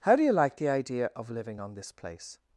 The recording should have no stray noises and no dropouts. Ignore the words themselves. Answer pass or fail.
pass